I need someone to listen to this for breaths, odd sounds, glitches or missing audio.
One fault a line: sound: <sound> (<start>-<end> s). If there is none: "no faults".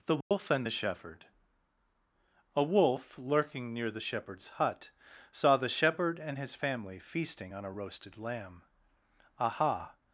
sound: dropout (0.2-0.3 s)